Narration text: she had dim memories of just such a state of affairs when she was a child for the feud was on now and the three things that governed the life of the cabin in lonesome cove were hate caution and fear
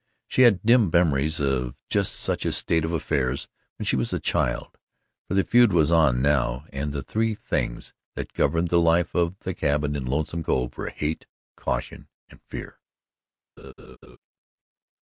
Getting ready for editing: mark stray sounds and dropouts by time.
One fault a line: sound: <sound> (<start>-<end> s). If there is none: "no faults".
sound: laugh (13.6-14.2 s)